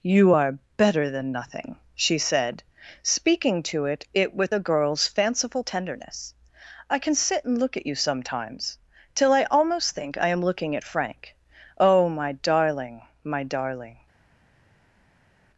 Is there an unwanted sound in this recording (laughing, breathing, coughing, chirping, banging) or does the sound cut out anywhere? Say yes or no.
no